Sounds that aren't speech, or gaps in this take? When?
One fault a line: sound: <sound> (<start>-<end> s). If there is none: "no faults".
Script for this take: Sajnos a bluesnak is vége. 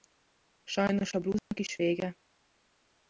sound: dropout (1.4-1.5 s)